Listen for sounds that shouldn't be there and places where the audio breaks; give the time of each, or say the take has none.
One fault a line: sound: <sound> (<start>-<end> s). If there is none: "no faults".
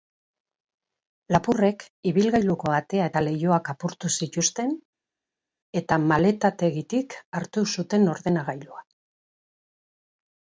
no faults